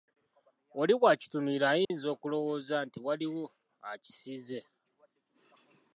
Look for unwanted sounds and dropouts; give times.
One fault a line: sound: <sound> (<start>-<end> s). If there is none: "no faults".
sound: dropout (1.8-1.9 s)